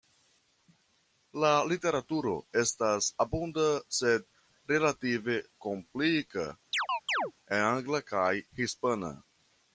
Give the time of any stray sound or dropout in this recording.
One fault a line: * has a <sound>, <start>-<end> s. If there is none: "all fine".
* has a chirp, 6.7-7.3 s